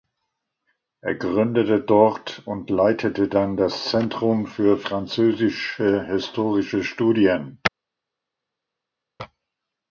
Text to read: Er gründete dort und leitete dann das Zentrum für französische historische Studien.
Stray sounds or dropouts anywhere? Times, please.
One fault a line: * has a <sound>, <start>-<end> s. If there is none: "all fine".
all fine